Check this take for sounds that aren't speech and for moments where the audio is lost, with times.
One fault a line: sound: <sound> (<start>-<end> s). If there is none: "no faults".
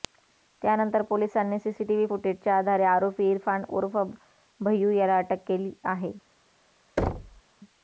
sound: thud (7.0-7.4 s)